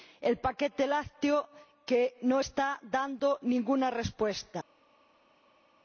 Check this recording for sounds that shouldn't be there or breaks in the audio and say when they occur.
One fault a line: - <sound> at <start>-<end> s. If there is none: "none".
none